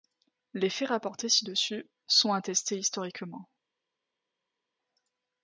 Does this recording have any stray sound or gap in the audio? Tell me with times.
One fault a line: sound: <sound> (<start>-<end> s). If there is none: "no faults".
no faults